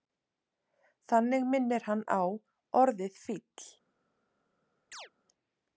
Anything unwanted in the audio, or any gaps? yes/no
yes